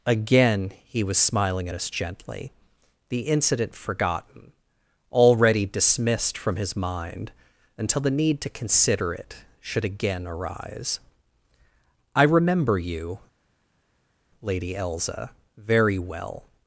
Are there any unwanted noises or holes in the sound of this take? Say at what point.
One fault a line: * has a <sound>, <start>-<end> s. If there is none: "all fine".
all fine